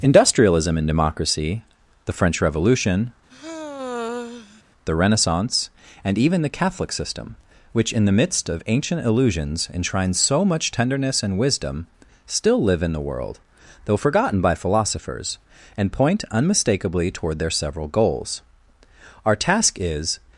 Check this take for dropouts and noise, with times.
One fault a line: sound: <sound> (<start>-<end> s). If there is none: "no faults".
sound: sigh (3.3-4.6 s)